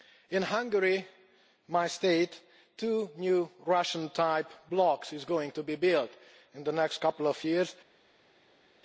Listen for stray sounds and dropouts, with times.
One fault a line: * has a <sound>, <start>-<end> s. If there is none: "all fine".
all fine